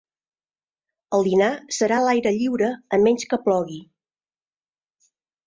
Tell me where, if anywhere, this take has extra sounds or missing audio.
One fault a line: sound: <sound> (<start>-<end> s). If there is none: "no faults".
no faults